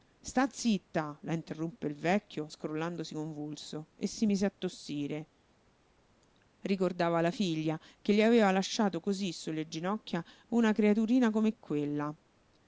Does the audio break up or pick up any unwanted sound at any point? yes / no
no